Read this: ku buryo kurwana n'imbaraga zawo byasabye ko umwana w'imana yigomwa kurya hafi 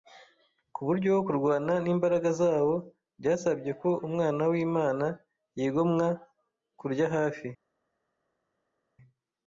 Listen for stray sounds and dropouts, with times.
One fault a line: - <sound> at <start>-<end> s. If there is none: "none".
none